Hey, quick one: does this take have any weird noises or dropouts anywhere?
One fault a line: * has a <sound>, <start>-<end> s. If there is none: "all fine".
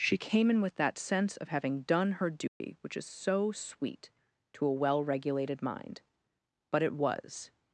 * has a dropout, 2.5-2.6 s